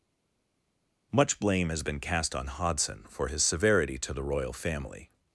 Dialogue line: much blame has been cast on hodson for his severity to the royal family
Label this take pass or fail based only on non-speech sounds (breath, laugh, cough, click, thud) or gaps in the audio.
pass